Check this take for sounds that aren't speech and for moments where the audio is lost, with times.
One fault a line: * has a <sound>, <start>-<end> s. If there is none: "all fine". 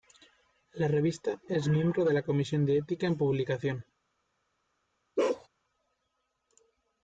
* has a bark, 5.2-5.5 s